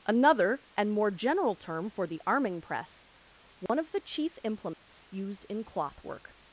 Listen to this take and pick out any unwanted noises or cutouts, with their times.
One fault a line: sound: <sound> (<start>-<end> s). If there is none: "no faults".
sound: dropout (3.7-3.7 s)
sound: dropout (4.7-4.9 s)